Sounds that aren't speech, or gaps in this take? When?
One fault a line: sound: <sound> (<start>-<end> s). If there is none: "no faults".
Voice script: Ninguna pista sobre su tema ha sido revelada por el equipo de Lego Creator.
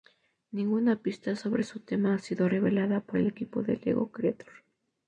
no faults